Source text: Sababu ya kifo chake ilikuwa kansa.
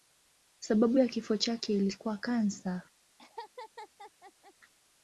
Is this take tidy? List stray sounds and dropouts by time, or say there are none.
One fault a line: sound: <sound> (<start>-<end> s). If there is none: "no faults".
sound: laugh (3.2-4.5 s)